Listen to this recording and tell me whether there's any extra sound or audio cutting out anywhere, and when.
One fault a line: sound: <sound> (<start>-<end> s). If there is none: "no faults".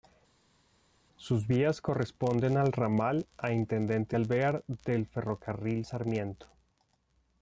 no faults